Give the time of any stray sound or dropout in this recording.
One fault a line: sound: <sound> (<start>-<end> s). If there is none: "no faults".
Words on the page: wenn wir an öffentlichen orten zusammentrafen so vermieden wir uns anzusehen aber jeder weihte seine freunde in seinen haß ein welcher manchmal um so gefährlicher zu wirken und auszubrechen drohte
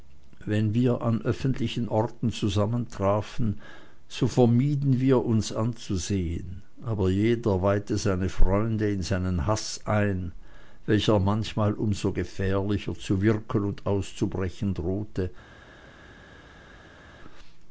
no faults